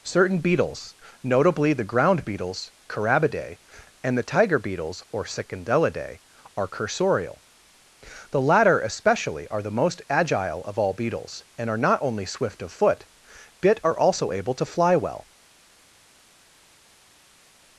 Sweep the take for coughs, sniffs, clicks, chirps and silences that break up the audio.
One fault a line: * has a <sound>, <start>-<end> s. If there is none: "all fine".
all fine